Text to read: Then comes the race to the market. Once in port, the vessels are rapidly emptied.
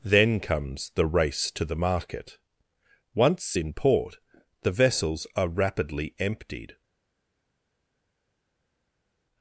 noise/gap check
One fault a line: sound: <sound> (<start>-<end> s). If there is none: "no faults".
no faults